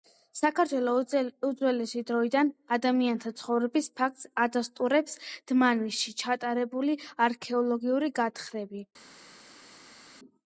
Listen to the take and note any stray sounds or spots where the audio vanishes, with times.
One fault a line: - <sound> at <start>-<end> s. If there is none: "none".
none